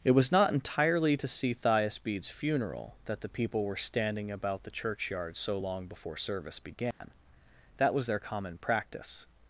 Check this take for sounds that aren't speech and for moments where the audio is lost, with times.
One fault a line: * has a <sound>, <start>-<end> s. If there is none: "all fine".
* has a dropout, 6.9-7.0 s